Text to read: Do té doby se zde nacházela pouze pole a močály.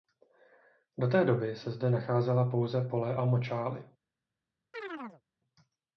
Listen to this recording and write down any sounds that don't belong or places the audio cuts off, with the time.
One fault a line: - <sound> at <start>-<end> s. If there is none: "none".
- chirp at 4.7-5.2 s